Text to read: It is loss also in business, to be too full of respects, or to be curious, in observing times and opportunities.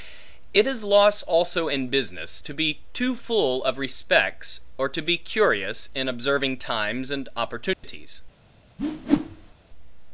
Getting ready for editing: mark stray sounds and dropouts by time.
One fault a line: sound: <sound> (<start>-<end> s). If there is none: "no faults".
sound: dropout (7.7-7.8 s)
sound: whoosh (8.8-9.5 s)